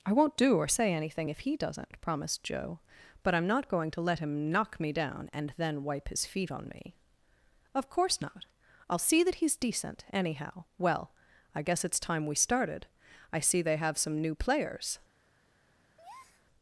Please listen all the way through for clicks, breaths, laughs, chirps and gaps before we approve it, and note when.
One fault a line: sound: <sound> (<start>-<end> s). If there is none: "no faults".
sound: breath (16.0-16.4 s)